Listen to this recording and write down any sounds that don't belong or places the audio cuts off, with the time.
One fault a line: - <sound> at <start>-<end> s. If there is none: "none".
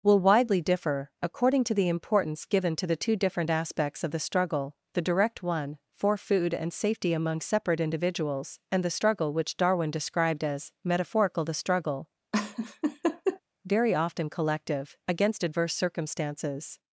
- laugh at 12.3-13.4 s